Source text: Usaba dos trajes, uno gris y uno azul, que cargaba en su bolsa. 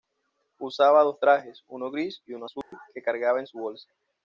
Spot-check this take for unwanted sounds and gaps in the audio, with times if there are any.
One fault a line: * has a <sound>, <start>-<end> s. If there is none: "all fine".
* has a dropout, 2.6-2.7 s